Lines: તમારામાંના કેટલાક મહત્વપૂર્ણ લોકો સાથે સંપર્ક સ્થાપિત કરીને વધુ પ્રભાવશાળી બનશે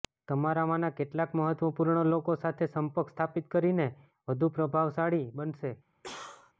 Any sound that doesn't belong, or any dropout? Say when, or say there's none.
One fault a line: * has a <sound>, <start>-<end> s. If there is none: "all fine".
* has a cough, 6.0-6.5 s